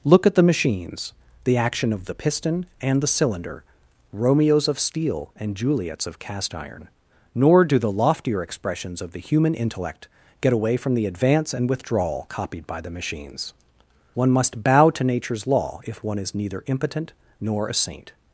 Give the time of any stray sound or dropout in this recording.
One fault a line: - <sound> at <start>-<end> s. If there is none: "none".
none